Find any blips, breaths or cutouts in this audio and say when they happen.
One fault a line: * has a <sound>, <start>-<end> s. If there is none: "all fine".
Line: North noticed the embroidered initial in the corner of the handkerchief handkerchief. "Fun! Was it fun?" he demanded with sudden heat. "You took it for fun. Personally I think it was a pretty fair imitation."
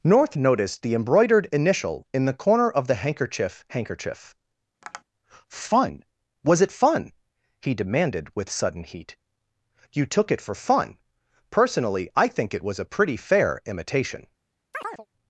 * has a tap, 4.8-5.0 s
* has a chirp, 14.7-15.1 s